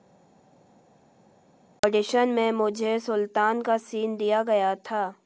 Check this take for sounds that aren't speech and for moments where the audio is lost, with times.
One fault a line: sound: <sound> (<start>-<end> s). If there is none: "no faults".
no faults